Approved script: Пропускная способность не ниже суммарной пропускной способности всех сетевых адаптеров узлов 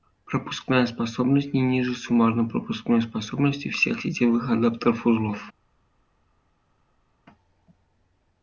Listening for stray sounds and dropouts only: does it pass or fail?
pass